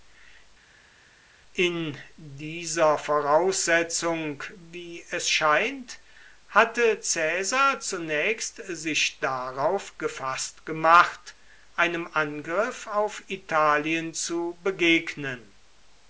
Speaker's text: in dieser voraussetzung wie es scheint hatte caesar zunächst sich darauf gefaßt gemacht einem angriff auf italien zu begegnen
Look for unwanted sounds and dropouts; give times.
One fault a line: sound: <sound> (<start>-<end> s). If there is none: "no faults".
no faults